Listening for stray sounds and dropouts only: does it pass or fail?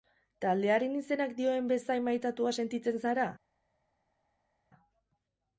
pass